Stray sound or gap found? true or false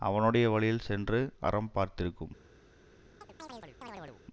true